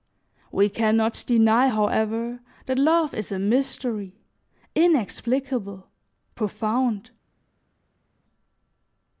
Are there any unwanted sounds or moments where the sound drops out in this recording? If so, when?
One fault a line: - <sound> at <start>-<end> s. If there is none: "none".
none